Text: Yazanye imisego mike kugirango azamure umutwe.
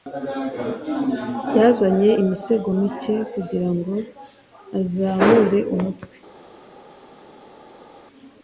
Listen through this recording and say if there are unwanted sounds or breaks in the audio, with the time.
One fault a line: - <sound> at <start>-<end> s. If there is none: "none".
none